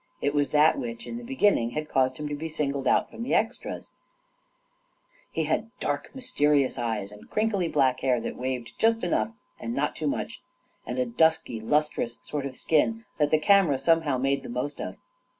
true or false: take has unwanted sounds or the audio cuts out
false